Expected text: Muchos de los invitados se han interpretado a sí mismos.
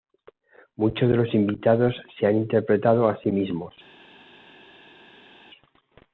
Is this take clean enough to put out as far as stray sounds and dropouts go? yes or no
yes